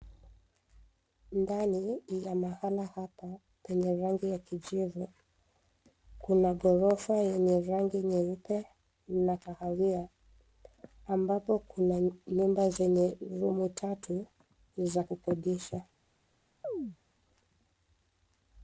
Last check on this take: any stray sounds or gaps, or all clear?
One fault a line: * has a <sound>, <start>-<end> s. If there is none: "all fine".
* has a chirp, 16.6-17.0 s